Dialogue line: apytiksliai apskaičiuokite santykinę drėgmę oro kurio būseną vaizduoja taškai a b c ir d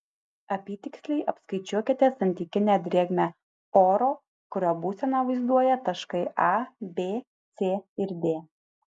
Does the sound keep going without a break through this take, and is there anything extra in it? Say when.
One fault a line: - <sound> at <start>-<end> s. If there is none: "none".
none